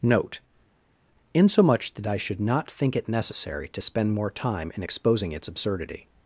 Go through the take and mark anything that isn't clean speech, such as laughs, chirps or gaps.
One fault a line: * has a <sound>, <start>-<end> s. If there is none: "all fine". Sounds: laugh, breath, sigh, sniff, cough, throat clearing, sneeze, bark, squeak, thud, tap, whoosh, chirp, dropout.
all fine